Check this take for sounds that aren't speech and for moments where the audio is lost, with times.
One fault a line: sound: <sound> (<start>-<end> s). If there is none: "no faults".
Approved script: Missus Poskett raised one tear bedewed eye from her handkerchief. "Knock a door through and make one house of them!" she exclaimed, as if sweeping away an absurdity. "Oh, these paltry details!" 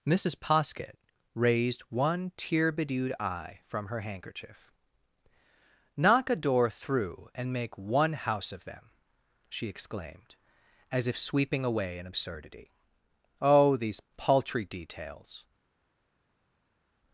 no faults